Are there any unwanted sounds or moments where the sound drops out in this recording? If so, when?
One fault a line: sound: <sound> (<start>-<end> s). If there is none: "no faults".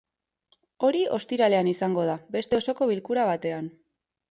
no faults